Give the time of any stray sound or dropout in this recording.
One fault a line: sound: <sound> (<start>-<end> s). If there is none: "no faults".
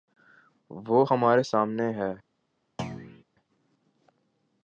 sound: thud (2.8-3.2 s)